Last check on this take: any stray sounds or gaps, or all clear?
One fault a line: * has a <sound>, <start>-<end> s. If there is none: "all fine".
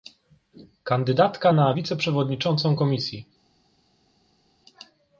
all fine